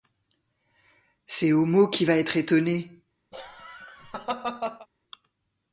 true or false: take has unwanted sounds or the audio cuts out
true